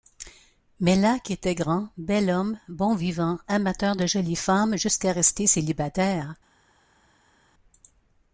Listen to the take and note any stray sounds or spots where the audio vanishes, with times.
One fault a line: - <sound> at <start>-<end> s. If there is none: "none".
none